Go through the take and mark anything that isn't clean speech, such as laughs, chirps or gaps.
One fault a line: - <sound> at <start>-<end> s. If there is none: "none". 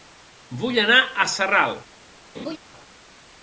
- laugh at 2.3-2.6 s